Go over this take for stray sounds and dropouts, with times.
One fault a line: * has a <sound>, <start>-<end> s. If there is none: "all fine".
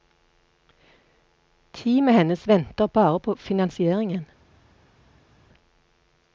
all fine